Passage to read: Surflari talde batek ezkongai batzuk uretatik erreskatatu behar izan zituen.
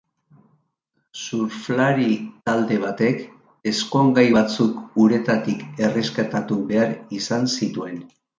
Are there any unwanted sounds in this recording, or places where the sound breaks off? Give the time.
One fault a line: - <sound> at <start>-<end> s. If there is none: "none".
none